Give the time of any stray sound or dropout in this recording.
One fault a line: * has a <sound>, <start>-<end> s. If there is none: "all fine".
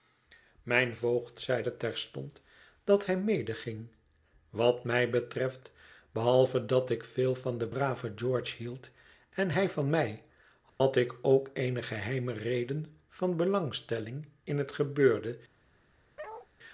* has a dropout, 10.7-10.8 s
* has a bark, 16.2-16.5 s